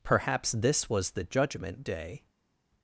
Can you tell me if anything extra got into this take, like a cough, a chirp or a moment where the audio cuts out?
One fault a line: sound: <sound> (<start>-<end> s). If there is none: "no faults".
no faults